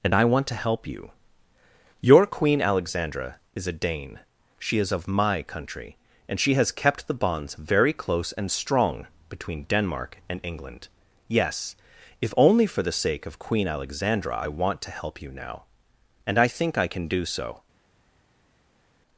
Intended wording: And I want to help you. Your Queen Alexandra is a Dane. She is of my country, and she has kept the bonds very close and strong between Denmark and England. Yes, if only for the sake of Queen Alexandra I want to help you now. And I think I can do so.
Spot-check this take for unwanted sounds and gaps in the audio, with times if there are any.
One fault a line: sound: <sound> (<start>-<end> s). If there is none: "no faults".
no faults